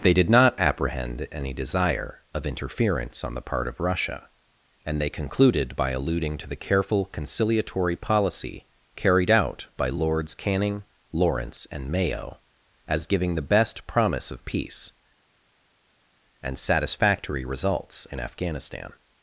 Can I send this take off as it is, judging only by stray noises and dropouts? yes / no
yes